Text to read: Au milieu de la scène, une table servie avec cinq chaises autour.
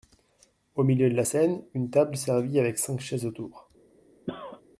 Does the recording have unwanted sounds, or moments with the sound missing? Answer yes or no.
yes